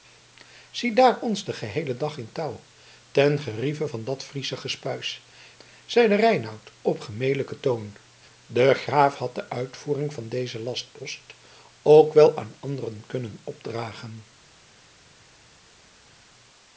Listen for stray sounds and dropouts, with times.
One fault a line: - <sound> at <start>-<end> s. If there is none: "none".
none